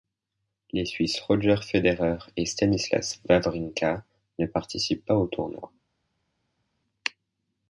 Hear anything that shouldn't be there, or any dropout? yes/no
no